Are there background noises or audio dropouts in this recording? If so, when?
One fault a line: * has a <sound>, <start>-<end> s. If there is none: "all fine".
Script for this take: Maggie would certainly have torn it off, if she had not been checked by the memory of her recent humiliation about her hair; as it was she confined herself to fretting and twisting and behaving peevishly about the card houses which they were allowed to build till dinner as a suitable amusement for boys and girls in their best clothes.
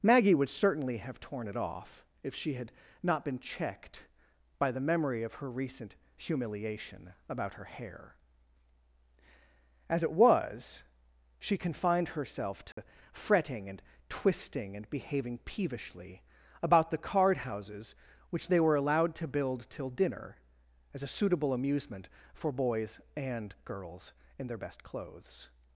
* has a dropout, 12.7-12.8 s